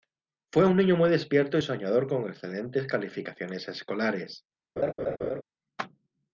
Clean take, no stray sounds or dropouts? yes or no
no